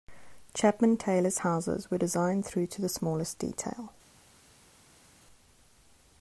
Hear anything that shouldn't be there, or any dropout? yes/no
no